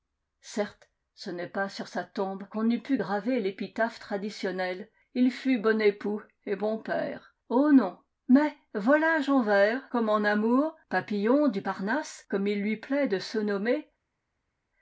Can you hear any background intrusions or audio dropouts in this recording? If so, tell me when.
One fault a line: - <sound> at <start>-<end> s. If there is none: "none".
none